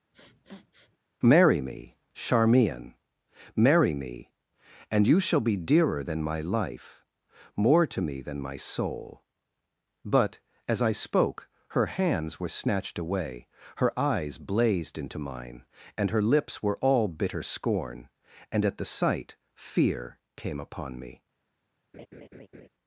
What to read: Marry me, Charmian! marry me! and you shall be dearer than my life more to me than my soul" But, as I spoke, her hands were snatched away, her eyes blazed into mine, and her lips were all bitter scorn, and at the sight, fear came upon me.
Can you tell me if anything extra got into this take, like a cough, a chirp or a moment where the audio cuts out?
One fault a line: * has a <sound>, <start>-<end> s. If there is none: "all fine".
* has a sniff, 0.1-1.0 s
* has a laugh, 21.9-22.7 s